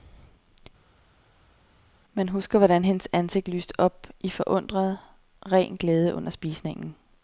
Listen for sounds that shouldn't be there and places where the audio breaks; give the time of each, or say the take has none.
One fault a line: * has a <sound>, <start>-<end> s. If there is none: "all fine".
all fine